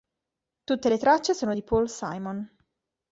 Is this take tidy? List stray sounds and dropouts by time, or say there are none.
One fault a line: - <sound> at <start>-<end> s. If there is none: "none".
none